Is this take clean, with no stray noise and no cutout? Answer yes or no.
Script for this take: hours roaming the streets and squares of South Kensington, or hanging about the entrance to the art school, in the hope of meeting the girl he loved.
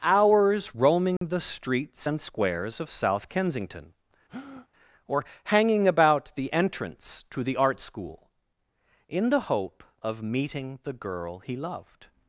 no